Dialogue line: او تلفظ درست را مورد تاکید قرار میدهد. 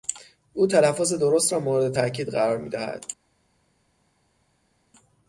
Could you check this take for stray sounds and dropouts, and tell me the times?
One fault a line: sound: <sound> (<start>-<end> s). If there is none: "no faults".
no faults